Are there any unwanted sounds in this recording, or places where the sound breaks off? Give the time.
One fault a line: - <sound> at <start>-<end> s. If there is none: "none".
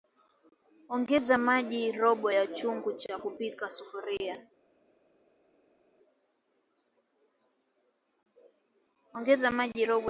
none